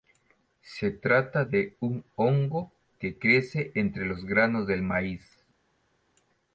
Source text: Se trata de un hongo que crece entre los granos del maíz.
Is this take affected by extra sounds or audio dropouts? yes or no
no